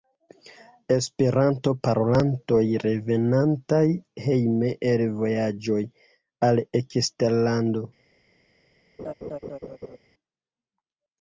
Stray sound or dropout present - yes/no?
yes